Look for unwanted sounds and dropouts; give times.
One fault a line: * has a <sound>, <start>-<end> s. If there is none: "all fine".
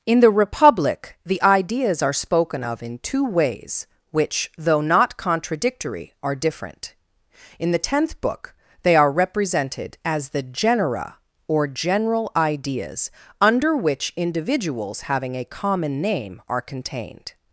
all fine